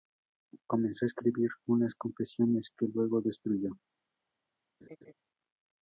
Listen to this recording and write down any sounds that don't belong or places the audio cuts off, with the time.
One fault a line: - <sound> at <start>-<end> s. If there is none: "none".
- laugh at 4.8-5.1 s